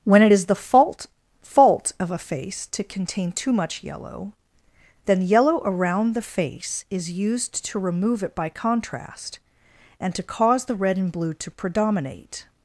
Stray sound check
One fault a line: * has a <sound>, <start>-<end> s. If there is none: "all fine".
all fine